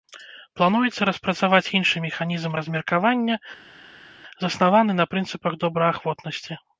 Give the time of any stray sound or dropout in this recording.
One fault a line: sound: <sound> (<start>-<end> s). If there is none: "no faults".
no faults